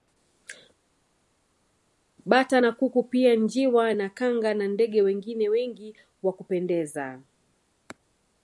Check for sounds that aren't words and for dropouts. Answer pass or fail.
pass